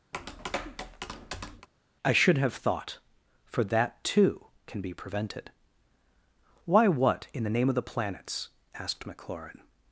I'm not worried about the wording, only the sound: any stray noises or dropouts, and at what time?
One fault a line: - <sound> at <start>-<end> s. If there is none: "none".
- tap at 0.1-1.7 s